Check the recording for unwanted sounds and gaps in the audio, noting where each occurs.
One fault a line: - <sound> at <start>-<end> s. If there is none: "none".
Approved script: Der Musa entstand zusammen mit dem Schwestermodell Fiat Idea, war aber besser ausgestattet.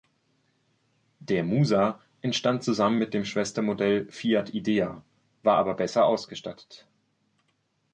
none